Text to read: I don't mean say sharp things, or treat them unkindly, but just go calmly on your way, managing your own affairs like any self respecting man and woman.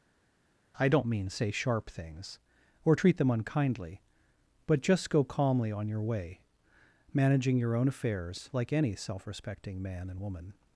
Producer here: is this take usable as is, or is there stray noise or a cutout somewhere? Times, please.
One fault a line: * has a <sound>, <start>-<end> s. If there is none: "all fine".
all fine